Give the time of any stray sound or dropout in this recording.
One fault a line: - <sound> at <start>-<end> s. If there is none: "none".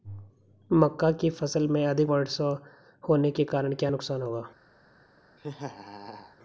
- laugh at 5.4-6.4 s